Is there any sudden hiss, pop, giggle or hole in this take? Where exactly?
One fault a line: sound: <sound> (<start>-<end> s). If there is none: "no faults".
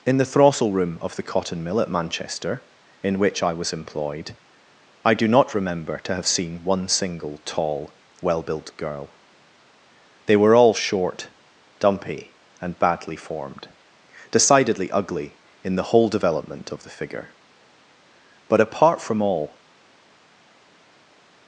no faults